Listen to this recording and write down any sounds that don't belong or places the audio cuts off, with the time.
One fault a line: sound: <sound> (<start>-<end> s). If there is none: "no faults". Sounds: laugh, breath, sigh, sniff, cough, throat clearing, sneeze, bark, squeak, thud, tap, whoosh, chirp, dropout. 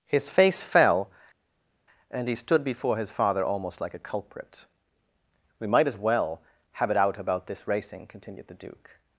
no faults